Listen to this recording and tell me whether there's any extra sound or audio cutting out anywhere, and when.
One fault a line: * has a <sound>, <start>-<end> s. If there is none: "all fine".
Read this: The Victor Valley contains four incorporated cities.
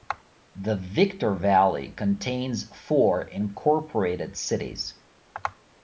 all fine